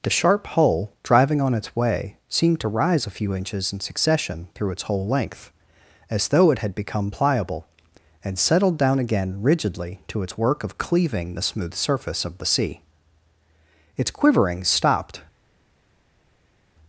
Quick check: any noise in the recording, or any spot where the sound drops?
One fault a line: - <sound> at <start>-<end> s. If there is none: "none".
none